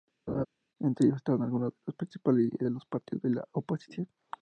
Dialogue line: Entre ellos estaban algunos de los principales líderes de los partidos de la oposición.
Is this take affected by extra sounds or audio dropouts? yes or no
yes